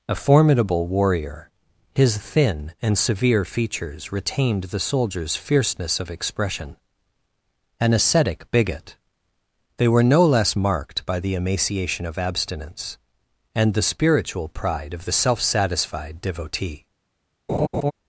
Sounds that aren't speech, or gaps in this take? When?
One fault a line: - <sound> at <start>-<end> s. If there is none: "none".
- laugh at 17.5-17.9 s